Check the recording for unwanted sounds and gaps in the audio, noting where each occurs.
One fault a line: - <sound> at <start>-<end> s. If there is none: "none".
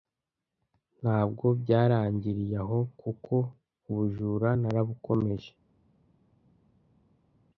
none